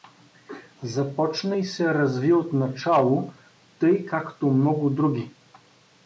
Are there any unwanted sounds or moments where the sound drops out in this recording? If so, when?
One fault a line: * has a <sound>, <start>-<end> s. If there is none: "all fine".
all fine